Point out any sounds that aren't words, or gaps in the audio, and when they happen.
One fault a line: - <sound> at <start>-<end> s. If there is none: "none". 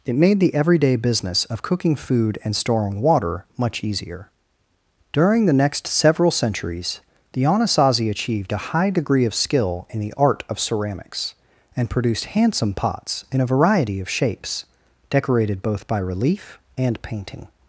none